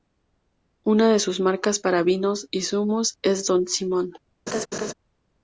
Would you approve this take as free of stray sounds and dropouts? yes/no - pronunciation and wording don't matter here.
no